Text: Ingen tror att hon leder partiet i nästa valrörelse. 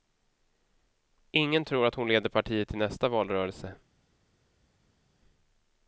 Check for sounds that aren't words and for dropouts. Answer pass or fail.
pass